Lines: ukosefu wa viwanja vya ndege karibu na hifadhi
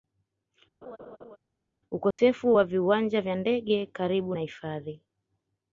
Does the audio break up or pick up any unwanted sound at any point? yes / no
yes